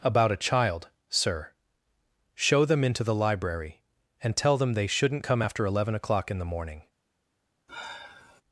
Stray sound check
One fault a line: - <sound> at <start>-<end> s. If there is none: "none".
- sigh at 7.7-8.4 s